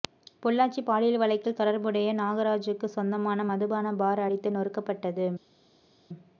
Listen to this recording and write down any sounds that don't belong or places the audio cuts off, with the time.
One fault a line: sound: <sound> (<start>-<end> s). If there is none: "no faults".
no faults